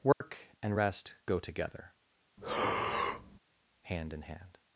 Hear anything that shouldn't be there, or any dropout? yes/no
yes